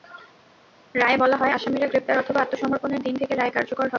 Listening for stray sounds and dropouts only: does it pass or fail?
pass